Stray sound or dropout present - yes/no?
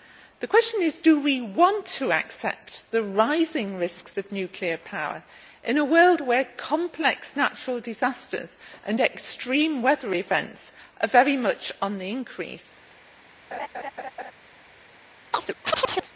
yes